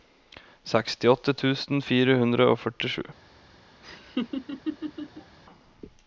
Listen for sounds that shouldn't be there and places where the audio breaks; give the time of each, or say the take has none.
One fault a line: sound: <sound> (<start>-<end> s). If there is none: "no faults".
sound: laugh (3.8-5.4 s)